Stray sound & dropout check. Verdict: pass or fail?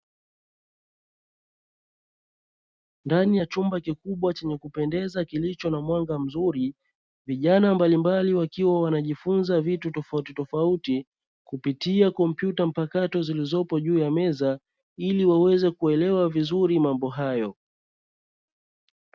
pass